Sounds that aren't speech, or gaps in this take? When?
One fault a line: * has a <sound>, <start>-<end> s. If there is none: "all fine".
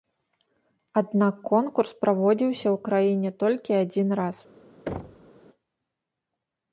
* has a thud, 4.9-5.3 s